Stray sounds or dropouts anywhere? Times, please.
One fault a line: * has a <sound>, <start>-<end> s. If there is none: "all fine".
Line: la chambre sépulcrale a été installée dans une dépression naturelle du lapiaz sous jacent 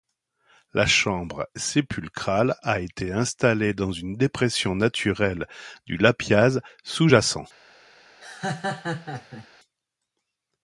* has a laugh, 8.2-9.5 s